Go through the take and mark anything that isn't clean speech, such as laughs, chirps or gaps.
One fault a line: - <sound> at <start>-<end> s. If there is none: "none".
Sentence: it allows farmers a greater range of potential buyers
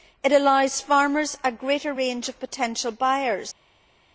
none